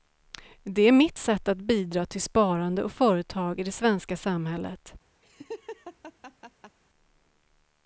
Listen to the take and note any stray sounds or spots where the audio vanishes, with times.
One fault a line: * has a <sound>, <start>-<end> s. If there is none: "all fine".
* has a laugh, 5.2-6.8 s